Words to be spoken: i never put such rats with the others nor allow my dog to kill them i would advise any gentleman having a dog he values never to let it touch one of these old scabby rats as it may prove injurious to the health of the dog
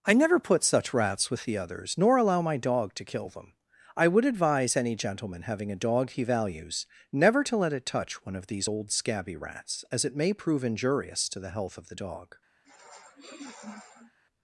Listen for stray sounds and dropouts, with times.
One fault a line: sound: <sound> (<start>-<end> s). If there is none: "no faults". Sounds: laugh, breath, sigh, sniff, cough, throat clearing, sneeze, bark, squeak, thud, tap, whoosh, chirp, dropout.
sound: sniff (12.6-14.2 s)